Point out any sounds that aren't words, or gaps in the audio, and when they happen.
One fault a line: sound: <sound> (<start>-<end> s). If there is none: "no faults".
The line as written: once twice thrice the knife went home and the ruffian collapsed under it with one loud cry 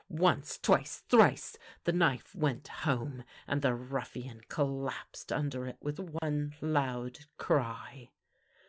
sound: dropout (6.2-6.2 s)